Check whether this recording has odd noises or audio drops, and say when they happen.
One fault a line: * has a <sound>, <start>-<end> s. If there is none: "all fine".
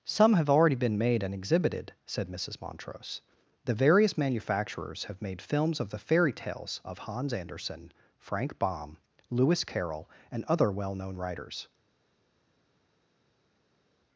all fine